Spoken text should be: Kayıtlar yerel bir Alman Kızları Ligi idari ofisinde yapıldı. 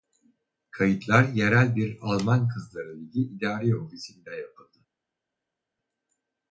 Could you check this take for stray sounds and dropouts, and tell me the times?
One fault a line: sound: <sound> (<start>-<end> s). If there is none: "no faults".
no faults